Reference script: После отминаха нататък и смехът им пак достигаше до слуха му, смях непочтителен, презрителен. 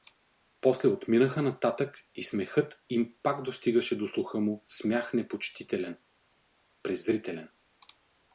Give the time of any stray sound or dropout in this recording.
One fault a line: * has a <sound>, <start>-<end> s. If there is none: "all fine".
all fine